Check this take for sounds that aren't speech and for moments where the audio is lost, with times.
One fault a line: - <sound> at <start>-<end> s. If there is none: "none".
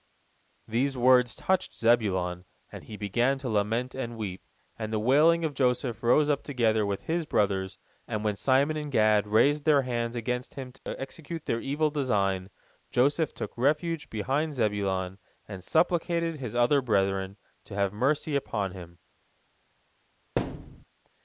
- dropout at 10.8-10.9 s
- thud at 20.4-20.8 s